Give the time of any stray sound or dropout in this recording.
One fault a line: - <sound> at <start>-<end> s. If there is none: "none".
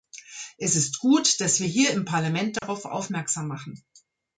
- dropout at 2.6-2.6 s